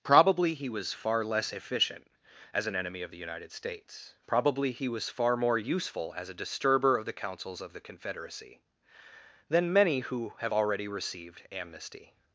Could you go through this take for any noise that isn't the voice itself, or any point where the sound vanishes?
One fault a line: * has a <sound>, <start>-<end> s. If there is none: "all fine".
all fine